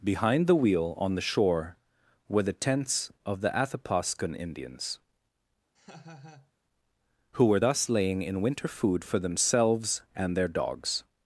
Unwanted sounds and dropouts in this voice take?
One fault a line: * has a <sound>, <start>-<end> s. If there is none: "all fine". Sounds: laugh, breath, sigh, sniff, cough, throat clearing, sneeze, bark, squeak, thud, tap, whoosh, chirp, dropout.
* has a laugh, 5.7-6.5 s